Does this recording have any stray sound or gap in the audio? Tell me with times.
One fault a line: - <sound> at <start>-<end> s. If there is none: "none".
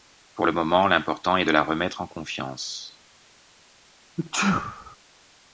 - sneeze at 4.2-5.0 s